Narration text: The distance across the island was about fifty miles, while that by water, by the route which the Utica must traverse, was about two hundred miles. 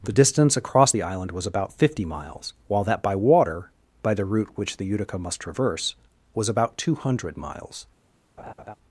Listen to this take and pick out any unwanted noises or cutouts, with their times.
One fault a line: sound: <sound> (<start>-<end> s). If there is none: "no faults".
sound: laugh (8.4-8.8 s)